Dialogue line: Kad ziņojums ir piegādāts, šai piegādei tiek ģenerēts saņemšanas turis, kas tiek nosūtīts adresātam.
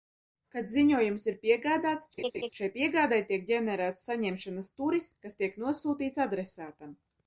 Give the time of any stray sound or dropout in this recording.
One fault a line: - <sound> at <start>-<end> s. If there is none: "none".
- laugh at 2.2-2.5 s